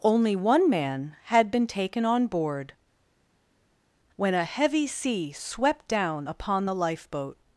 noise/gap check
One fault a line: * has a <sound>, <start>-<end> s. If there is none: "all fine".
all fine